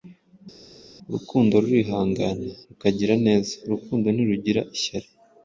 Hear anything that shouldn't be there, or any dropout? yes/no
no